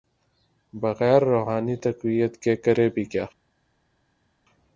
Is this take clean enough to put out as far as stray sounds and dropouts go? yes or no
yes